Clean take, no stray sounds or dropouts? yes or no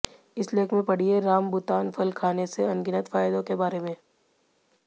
yes